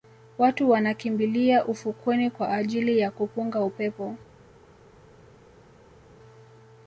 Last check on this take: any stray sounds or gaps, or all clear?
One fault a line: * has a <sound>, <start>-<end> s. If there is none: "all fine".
all fine